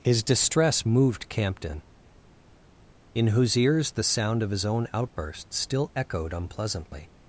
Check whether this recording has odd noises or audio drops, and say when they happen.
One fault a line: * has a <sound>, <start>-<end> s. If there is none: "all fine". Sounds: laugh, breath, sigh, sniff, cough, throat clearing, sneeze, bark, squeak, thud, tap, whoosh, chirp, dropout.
all fine